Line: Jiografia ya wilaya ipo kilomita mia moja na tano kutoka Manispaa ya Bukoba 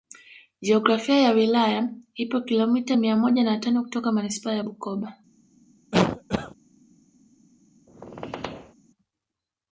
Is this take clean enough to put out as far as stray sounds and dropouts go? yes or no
no